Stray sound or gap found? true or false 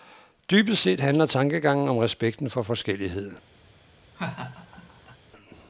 true